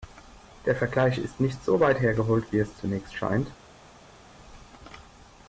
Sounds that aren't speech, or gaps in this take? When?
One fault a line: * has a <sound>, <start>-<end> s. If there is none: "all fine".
all fine